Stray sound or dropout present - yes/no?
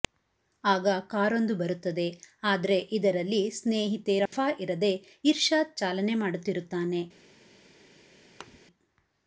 yes